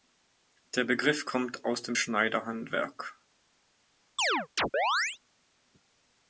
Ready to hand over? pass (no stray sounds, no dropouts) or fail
fail